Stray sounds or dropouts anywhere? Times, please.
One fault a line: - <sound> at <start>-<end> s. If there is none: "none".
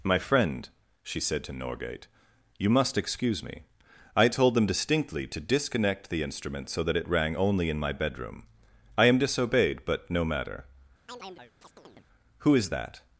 - chirp at 11.1-12.1 s